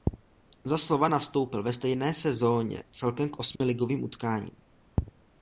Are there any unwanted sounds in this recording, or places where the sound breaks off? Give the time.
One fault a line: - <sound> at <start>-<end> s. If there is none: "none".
- dropout at 3.6-3.6 s